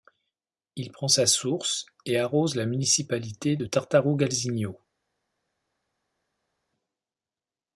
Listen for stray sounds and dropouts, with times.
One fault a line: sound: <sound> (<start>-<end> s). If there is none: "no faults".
no faults